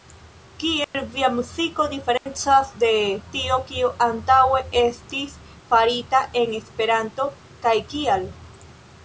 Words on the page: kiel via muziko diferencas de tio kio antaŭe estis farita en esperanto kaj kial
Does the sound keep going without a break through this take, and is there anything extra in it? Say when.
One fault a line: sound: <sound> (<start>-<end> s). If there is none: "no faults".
sound: dropout (0.8-0.9 s)
sound: dropout (2.2-2.3 s)